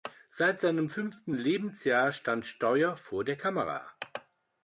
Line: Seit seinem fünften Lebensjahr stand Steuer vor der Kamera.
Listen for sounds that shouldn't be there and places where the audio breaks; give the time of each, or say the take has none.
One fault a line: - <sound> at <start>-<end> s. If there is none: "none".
none